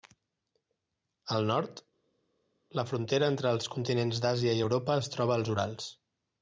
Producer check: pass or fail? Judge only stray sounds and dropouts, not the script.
pass